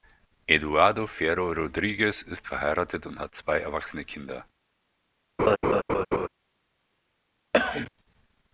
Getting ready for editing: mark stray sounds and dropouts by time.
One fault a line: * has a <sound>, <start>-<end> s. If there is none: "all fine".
* has a laugh, 5.4-6.3 s
* has a cough, 7.5-7.9 s